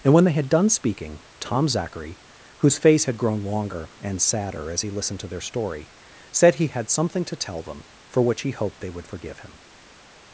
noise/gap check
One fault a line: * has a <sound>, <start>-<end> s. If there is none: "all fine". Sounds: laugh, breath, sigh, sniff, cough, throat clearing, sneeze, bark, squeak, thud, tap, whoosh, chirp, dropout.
all fine